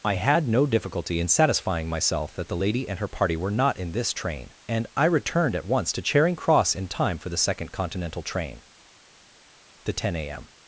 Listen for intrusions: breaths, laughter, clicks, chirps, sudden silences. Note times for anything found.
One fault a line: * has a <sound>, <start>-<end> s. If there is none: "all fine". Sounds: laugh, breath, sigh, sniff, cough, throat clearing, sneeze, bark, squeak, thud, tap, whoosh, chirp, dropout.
all fine